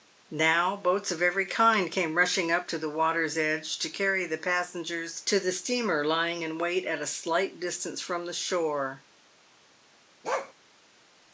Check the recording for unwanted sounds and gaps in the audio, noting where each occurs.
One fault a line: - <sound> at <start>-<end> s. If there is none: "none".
- bark at 10.2-10.5 s